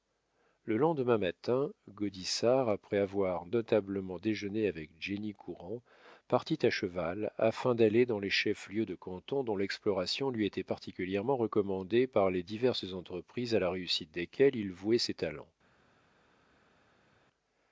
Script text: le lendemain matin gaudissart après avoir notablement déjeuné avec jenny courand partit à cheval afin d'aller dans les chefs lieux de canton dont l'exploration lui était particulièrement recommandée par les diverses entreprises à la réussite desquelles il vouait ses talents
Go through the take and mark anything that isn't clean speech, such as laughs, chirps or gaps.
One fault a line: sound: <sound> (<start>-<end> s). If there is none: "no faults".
no faults